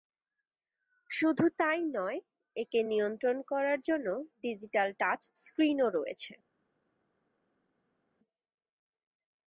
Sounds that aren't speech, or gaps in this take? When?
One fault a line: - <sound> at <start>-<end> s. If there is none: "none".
none